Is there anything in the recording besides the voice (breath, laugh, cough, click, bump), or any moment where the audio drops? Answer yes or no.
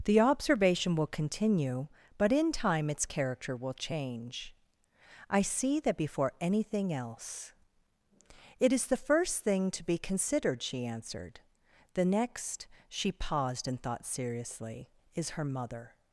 no